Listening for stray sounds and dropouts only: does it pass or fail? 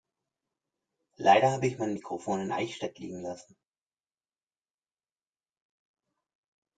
pass